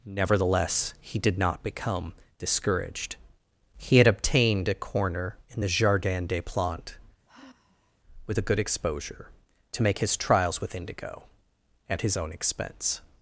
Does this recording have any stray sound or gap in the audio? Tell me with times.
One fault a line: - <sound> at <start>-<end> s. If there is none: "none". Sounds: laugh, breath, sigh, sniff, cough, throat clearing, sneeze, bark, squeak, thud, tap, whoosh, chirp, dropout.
- sigh at 7.3-8.0 s